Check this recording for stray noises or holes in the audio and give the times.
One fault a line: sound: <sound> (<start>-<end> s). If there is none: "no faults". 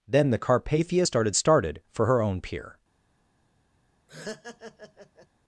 sound: laugh (4.1-5.3 s)